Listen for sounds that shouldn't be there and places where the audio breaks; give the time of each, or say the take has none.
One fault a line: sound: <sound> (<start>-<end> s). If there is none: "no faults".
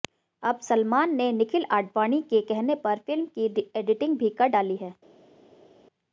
no faults